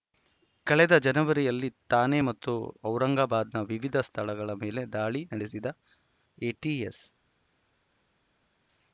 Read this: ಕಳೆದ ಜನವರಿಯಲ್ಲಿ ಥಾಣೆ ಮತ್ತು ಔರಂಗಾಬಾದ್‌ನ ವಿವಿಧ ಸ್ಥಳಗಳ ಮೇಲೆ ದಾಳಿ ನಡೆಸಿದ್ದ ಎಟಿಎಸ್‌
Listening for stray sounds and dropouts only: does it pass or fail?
pass